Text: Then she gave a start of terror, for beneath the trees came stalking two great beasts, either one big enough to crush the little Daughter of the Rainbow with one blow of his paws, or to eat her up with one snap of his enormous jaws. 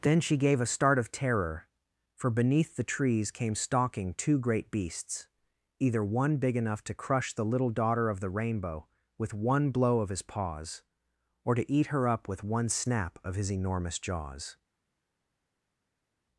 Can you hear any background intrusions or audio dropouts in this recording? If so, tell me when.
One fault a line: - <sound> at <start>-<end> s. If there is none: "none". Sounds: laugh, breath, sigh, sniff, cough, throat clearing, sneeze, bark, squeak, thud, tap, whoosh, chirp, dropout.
none